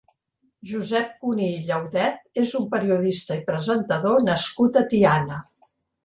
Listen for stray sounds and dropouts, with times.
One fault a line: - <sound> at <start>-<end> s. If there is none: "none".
none